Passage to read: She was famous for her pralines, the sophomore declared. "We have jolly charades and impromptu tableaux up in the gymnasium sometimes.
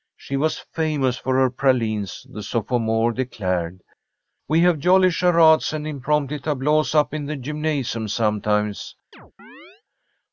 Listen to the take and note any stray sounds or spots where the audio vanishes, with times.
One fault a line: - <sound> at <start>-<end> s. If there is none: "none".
- chirp at 9.1-9.8 s